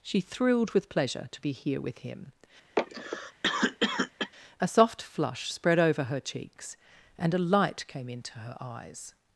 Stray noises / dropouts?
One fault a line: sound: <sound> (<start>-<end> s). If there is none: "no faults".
sound: cough (2.8-4.3 s)